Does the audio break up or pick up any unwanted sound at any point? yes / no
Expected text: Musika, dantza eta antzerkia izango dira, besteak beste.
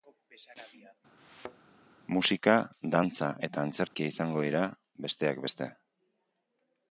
yes